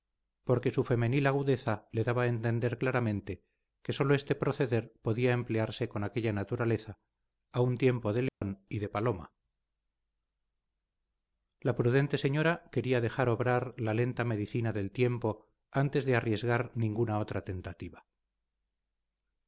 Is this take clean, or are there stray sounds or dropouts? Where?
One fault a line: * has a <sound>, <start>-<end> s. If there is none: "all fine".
* has a dropout, 8.3-8.4 s